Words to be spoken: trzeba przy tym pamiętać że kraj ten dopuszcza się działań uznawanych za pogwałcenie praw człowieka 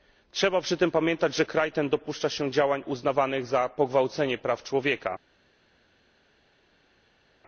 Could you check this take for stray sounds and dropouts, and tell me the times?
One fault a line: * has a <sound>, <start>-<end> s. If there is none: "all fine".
all fine